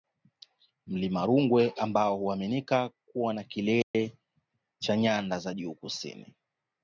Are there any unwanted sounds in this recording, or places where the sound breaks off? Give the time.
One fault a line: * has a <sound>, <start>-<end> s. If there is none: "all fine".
* has a dropout, 3.8-3.9 s